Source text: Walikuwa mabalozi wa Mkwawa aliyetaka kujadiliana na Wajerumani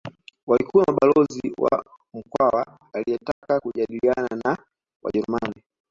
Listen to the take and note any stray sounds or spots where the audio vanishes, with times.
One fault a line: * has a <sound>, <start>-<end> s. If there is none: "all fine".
* has a dropout, 3.3-3.4 s